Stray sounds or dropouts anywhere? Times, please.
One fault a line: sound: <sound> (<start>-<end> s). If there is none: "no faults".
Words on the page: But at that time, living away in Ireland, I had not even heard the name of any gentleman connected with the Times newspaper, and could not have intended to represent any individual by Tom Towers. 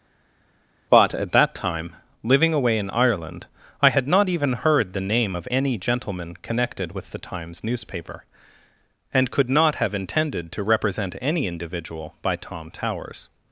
no faults